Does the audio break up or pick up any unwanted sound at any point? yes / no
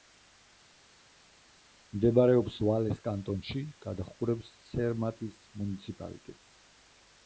no